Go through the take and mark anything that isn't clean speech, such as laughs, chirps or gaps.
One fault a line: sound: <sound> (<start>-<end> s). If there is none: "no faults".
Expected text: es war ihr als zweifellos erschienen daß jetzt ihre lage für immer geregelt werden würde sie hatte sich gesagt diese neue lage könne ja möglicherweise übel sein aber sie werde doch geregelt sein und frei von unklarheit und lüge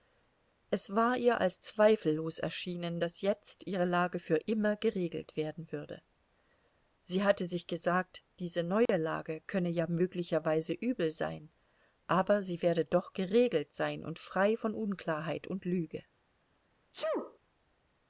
sound: dropout (8.9-8.9 s)
sound: sneeze (16.9-17.4 s)